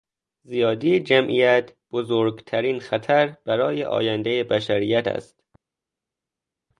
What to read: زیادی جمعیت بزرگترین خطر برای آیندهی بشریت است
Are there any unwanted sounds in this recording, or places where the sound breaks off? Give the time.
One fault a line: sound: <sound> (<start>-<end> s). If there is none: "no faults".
no faults